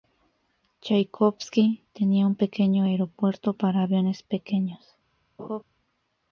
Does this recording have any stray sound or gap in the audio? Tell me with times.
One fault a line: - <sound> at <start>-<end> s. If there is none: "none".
- laugh at 5.4-5.6 s